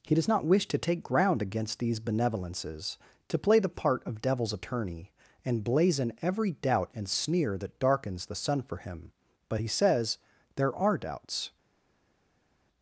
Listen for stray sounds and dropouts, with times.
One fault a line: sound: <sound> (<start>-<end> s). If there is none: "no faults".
no faults